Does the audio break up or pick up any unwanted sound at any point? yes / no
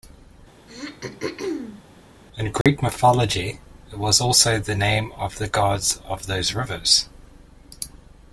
yes